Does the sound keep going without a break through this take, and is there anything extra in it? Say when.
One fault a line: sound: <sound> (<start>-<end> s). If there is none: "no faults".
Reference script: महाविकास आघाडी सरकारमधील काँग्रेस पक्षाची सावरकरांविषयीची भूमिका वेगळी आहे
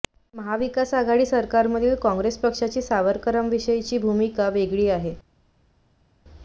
no faults